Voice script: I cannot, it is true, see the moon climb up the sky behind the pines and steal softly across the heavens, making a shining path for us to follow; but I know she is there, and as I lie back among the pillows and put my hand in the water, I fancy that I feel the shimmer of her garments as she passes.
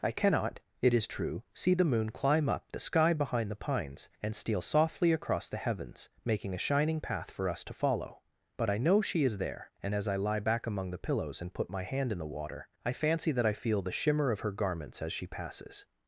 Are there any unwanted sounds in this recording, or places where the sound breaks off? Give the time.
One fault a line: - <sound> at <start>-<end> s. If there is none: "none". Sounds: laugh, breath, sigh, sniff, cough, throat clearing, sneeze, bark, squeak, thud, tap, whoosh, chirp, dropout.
none